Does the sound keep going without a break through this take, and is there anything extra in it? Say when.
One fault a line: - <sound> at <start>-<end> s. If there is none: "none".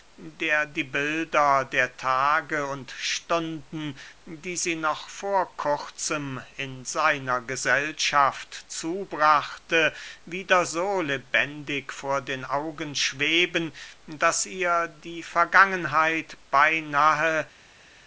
none